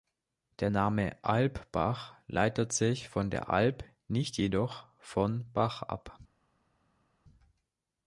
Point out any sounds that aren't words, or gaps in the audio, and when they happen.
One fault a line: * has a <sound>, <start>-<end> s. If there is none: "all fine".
all fine